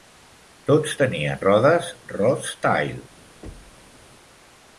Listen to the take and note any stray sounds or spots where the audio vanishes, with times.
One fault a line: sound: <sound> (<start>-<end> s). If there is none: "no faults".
sound: thud (3.4-4.0 s)